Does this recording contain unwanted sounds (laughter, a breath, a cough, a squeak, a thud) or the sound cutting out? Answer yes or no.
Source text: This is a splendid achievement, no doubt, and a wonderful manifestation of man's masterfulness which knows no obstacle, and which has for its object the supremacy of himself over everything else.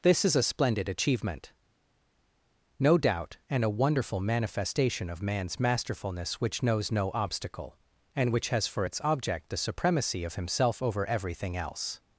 no